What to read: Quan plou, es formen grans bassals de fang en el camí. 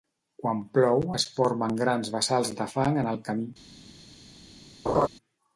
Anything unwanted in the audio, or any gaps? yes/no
yes